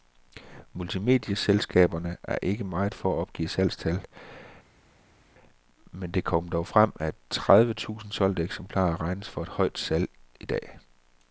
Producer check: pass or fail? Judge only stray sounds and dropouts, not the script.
pass